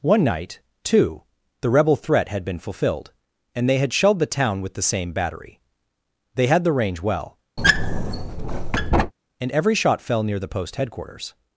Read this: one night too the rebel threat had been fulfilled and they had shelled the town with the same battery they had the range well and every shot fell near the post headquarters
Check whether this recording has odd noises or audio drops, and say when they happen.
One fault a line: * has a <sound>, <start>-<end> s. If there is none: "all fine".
* has a squeak, 7.6-9.1 s